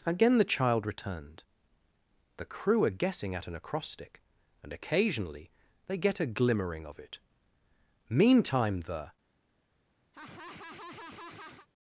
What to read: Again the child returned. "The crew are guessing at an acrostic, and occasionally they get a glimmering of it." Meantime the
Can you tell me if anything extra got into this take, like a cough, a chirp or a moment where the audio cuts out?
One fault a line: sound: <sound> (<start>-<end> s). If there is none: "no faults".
sound: laugh (10.1-11.7 s)